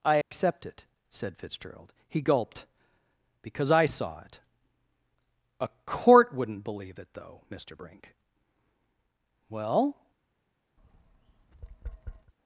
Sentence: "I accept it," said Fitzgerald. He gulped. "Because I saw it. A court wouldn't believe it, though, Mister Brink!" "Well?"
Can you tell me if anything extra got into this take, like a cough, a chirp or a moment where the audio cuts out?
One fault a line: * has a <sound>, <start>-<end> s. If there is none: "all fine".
* has a dropout, 0.2-0.3 s
* has a tap, 10.8-12.3 s